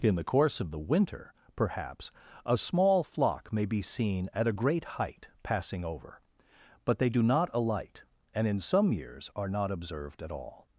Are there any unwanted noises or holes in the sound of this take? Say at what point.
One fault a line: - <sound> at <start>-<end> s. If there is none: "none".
none